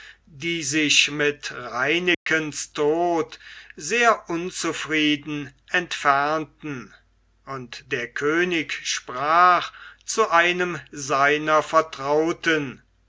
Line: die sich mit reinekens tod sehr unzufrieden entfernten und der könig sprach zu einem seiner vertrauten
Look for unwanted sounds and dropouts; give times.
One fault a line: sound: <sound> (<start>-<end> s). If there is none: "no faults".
sound: dropout (2.1-2.3 s)